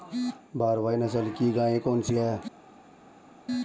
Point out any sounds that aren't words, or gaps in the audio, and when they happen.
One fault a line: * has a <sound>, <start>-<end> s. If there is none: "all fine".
all fine